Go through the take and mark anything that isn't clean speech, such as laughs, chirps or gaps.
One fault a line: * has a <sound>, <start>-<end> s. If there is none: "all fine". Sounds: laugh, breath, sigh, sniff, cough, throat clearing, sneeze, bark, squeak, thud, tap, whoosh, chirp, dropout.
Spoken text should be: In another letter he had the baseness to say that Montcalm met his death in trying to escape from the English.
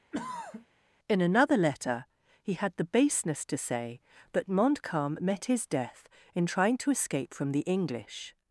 * has a throat clearing, 0.1-0.7 s